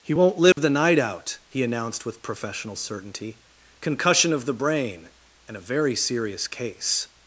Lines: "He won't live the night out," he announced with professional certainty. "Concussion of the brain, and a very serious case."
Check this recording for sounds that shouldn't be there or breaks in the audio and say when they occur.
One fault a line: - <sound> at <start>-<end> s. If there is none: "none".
- dropout at 0.5-0.6 s